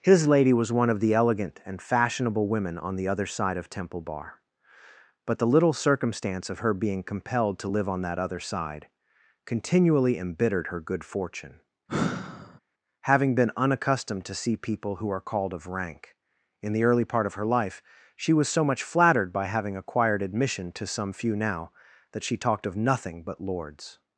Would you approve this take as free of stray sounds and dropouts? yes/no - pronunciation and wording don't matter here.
no